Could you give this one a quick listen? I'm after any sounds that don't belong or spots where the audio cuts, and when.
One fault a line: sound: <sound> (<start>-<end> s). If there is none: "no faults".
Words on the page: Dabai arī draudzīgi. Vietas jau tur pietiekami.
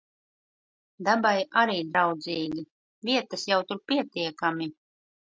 no faults